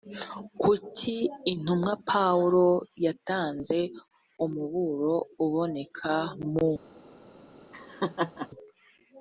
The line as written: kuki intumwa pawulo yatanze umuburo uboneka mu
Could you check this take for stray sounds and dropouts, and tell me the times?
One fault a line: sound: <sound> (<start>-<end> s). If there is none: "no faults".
sound: laugh (7.7-8.5 s)